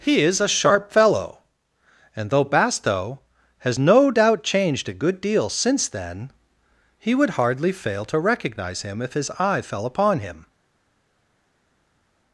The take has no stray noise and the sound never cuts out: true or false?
true